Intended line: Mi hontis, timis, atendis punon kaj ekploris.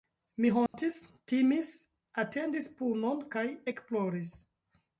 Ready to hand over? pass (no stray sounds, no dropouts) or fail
fail